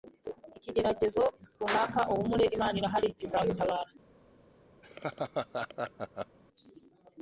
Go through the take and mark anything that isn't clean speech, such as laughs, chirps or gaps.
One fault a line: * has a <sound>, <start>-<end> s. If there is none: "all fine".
* has a laugh, 4.8-6.4 s